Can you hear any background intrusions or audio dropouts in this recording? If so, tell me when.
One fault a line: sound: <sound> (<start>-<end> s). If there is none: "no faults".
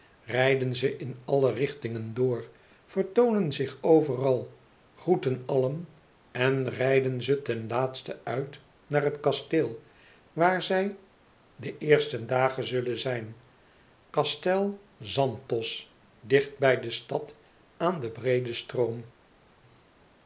no faults